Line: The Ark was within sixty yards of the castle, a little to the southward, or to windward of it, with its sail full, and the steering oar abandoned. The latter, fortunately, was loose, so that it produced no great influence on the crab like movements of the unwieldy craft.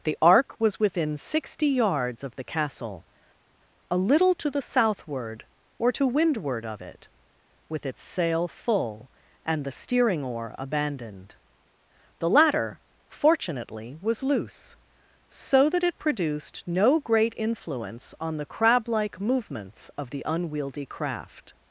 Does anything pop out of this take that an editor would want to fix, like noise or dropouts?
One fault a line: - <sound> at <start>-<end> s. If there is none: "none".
none